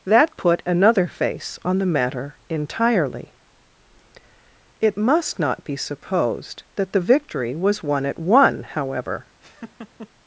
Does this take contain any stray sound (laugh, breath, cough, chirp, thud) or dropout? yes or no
yes